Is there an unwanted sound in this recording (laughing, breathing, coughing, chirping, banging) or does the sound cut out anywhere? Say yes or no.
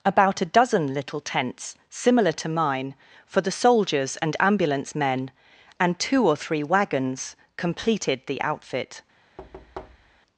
yes